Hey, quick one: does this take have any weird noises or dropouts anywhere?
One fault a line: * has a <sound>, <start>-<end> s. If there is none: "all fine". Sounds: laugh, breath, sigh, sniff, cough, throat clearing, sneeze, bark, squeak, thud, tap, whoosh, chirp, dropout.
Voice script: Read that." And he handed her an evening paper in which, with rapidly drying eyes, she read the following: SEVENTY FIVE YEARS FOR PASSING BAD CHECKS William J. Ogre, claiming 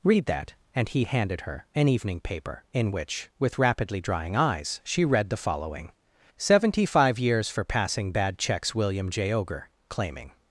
all fine